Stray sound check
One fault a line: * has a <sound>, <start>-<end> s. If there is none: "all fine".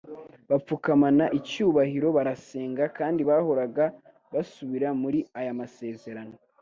all fine